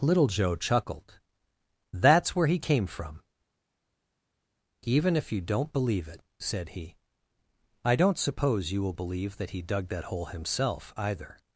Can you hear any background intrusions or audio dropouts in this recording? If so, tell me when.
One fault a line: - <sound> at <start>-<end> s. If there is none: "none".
none